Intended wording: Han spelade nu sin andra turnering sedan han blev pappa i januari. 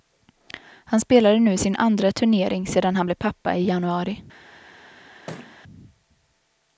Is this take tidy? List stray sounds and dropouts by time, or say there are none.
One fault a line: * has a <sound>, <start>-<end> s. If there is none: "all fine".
* has a thud, 5.3-5.6 s